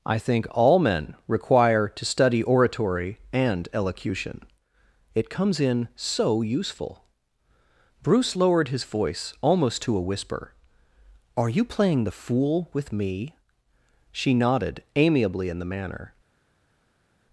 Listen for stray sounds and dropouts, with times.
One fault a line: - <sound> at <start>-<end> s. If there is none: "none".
none